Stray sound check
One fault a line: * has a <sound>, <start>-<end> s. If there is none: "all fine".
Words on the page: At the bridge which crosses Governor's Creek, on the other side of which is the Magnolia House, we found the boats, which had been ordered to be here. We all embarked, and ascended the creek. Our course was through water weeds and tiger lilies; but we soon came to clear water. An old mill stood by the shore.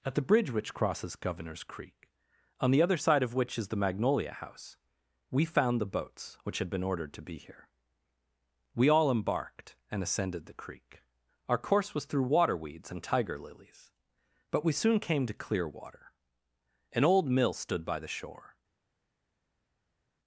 all fine